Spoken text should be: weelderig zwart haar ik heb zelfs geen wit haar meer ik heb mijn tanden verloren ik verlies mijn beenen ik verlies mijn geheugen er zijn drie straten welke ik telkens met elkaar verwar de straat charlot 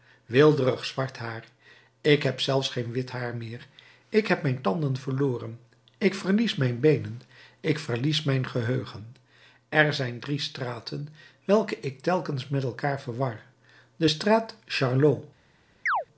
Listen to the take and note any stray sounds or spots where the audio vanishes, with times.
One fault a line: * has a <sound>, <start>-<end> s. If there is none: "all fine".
* has a chirp, 15.9-16.1 s